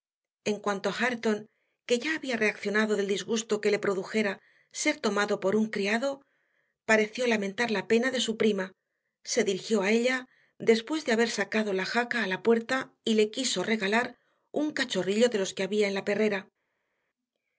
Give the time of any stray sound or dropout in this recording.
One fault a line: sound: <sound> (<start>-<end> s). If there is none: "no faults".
no faults